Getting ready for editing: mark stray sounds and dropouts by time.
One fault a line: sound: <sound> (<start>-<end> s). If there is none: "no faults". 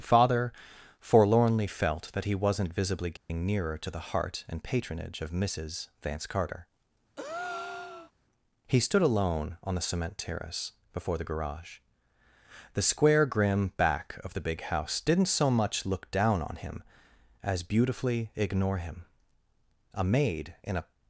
sound: dropout (3.2-3.3 s)
sound: breath (7.2-8.1 s)